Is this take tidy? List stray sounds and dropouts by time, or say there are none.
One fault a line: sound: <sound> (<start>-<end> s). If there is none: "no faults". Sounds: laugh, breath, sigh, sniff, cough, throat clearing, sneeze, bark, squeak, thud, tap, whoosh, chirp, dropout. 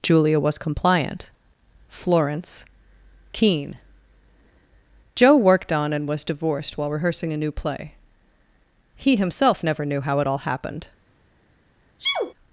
sound: sneeze (12.0-12.3 s)